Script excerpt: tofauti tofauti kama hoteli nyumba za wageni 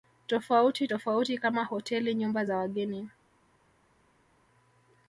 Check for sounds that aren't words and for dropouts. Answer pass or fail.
pass